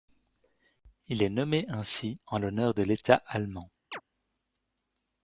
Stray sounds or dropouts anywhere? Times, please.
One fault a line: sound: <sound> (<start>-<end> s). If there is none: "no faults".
sound: chirp (3.9-4.0 s)